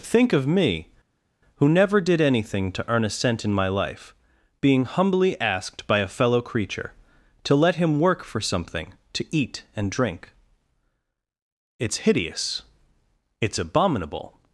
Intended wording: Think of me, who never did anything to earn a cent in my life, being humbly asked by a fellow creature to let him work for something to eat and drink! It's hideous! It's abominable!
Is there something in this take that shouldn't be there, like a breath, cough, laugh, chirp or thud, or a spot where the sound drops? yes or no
no